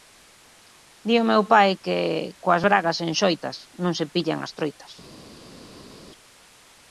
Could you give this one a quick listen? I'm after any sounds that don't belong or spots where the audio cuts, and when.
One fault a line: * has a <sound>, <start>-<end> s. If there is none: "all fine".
all fine